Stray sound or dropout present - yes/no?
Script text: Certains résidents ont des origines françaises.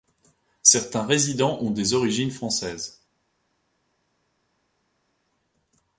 no